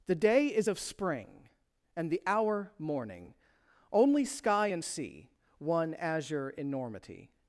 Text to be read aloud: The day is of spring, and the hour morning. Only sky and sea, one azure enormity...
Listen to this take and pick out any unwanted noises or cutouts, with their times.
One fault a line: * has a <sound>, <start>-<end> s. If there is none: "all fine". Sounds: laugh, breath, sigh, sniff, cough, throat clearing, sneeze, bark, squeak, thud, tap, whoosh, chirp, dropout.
all fine